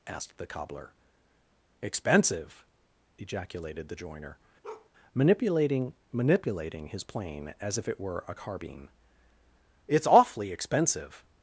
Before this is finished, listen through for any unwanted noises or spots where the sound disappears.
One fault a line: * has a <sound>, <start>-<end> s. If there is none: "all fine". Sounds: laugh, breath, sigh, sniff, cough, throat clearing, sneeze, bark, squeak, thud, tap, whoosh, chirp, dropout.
* has a bark, 4.6-4.9 s